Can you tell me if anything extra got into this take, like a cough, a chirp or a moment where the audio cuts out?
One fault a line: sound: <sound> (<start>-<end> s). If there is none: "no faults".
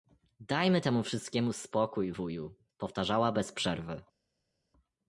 no faults